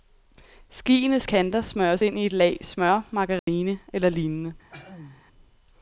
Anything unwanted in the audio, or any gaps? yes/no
yes